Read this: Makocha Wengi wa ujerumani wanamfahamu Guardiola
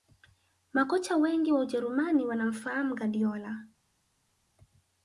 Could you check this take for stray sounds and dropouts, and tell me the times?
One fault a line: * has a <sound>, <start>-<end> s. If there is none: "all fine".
all fine